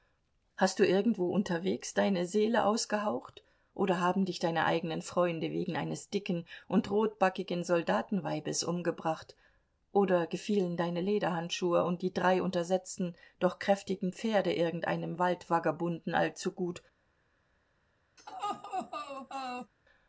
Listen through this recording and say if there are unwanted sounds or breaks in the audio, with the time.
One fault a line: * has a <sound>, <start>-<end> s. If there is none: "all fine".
* has a laugh, 18.2-19.7 s